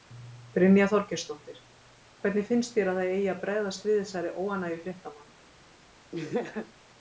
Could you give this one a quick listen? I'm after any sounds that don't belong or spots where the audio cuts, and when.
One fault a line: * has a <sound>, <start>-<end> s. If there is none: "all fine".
* has a laugh, 6.1-6.7 s